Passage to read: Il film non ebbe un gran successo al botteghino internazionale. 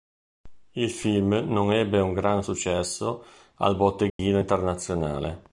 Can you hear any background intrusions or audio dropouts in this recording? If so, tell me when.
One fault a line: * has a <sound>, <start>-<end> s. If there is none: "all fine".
* has a dropout, 4.1-4.2 s